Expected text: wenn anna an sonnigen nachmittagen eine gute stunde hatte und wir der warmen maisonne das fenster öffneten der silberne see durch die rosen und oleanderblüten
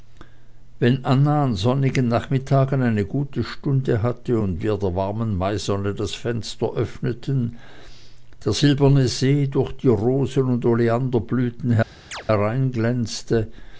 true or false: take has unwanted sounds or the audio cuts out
true